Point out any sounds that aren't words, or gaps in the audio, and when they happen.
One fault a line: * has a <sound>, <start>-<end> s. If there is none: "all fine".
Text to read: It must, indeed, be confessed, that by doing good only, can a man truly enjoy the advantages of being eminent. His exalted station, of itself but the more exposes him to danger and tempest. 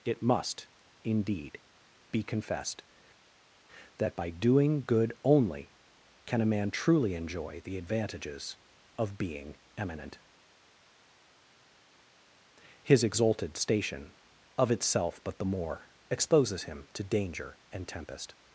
all fine